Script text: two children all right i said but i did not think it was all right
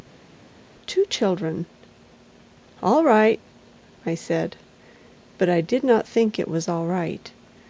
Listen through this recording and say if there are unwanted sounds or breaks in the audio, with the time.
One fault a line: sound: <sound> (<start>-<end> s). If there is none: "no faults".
no faults